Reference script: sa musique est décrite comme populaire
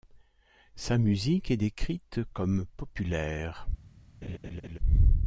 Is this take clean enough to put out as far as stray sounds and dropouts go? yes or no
no